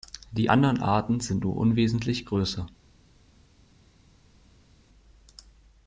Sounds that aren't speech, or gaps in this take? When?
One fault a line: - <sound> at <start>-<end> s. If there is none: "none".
none